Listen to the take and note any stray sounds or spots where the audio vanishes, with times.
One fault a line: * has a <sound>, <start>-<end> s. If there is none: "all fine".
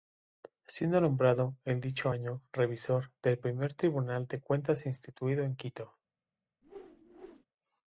* has a whoosh, 6.6-7.5 s